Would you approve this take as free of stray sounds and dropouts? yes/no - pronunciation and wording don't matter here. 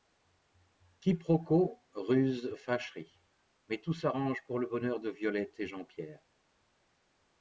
yes